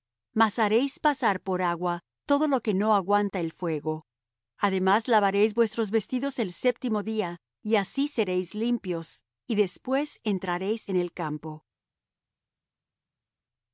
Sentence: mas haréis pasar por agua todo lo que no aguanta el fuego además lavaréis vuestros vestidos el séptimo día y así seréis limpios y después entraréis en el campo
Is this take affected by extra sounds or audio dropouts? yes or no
no